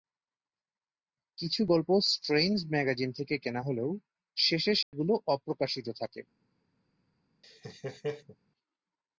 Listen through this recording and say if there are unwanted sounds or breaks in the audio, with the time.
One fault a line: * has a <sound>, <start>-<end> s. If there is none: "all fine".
* has a dropout, 4.8-4.9 s
* has a laugh, 7.4-8.4 s